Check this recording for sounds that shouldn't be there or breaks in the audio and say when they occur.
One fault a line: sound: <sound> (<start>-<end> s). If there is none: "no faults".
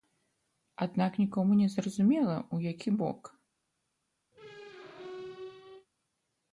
sound: squeak (4.3-5.9 s)